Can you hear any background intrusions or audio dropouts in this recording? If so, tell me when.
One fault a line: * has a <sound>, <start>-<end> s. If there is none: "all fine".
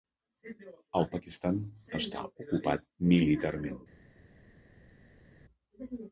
all fine